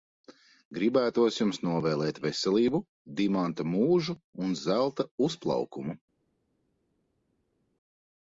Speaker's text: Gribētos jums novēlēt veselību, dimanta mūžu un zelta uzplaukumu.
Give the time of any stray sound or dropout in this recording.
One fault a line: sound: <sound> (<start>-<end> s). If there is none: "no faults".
no faults